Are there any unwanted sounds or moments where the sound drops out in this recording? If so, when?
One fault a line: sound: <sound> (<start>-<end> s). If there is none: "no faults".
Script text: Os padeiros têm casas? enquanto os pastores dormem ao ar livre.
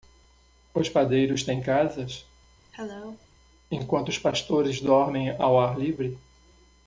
sound: cough (2.7-3.3 s)